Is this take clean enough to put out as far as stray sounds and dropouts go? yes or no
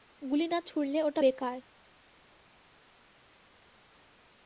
yes